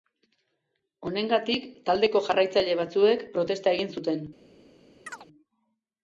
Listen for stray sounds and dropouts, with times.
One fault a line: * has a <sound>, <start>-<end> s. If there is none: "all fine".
* has a chirp, 5.1-5.3 s